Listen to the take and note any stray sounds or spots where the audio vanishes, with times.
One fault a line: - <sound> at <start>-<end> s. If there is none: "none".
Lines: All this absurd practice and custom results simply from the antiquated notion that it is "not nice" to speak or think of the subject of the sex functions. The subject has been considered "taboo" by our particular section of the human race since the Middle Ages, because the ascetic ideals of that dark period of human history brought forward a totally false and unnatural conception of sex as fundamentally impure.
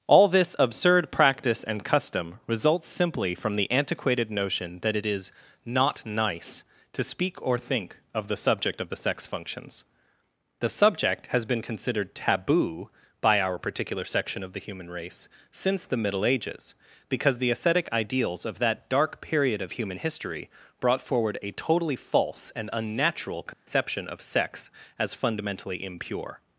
- dropout at 23.5-23.7 s